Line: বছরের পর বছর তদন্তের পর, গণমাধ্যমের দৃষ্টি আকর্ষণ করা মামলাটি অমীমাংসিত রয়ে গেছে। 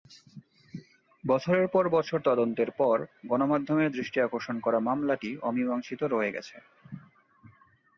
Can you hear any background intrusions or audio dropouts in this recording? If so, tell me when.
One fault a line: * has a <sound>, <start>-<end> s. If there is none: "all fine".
all fine